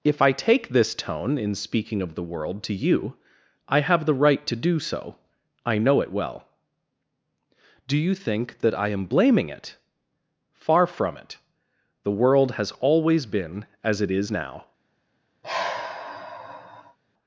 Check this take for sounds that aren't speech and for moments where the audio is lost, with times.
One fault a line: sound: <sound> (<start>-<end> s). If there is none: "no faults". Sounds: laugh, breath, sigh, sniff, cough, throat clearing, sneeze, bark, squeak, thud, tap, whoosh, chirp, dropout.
sound: sigh (15.4-17.0 s)